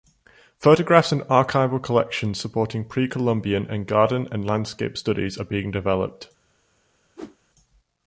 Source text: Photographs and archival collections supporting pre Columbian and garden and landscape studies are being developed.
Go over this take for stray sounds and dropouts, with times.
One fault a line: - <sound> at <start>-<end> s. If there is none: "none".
- whoosh at 7.2-7.4 s